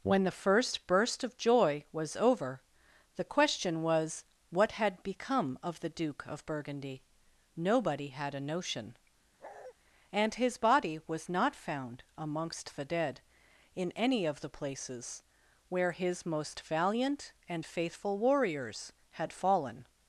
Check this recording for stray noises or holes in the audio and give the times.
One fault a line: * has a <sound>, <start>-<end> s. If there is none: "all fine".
* has a bark, 9.4-9.7 s